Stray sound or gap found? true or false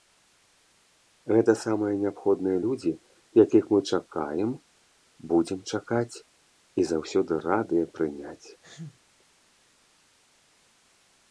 true